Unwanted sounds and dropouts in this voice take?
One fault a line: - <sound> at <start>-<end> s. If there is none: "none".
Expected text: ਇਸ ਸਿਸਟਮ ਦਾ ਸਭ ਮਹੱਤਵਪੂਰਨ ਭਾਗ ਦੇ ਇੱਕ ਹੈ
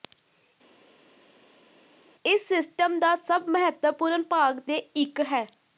none